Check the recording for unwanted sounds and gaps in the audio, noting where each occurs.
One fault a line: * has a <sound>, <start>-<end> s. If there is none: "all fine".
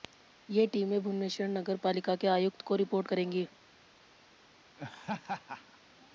* has a laugh, 4.8-5.8 s